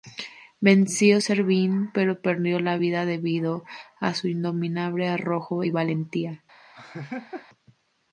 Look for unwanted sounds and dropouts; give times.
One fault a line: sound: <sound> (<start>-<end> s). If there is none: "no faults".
sound: laugh (6.7-7.5 s)